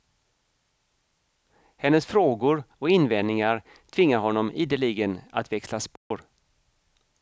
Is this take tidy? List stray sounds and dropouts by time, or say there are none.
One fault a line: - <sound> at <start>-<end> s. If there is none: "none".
- dropout at 6.0-6.1 s